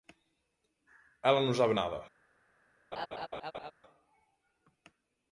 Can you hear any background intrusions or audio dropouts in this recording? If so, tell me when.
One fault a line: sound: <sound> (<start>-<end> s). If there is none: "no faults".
sound: laugh (2.9-3.7 s)